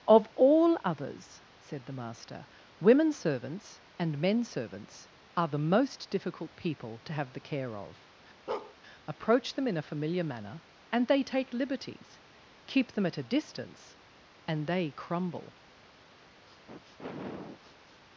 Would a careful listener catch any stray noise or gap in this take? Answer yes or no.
yes